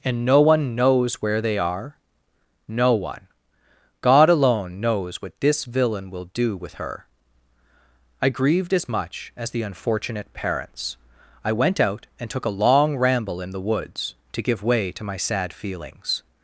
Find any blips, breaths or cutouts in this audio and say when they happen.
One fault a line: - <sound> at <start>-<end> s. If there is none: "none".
none